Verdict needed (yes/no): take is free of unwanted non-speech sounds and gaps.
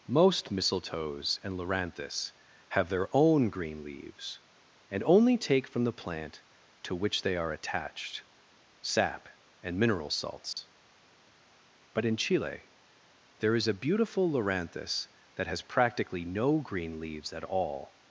no